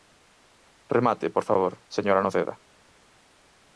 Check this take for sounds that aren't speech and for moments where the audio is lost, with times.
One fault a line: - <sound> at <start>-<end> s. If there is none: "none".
none